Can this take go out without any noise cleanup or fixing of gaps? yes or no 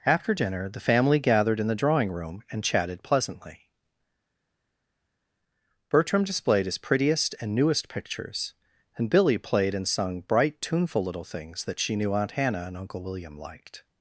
yes